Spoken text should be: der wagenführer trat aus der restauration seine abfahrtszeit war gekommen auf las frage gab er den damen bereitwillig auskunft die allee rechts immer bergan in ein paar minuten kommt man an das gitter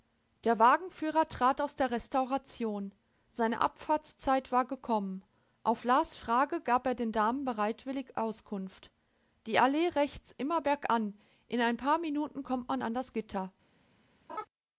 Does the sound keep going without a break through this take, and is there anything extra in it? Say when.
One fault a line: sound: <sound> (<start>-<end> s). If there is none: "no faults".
sound: laugh (14.3-14.5 s)